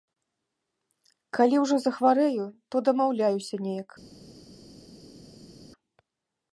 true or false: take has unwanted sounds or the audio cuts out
false